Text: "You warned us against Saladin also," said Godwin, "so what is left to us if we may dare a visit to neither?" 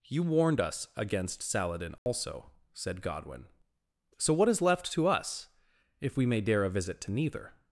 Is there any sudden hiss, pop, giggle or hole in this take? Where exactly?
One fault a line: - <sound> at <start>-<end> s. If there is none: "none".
- dropout at 2.0-2.1 s